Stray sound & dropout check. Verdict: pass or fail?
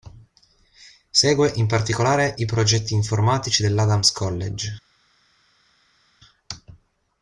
pass